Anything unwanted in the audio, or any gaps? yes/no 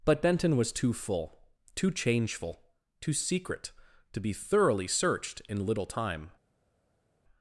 no